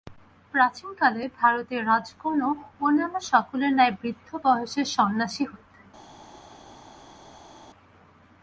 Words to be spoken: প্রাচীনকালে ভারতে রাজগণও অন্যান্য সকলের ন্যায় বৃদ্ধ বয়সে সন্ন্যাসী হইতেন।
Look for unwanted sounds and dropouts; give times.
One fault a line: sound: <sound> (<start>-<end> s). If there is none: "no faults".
no faults